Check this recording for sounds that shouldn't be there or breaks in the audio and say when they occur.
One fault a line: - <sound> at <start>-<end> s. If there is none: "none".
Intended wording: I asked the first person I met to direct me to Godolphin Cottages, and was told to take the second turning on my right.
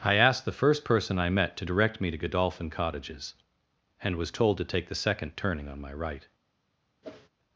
- whoosh at 7.0-7.3 s